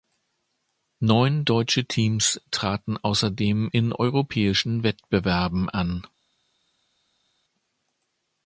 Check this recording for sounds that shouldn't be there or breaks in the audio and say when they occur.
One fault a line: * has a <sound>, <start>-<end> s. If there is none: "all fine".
all fine